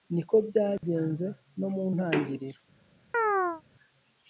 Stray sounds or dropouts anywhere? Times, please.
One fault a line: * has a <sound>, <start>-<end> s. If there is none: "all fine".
* has a dropout, 0.8-0.8 s
* has a chirp, 3.1-3.6 s